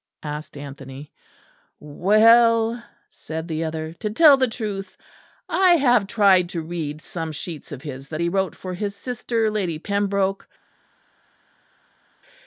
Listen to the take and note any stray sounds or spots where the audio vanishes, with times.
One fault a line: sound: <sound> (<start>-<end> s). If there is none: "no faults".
no faults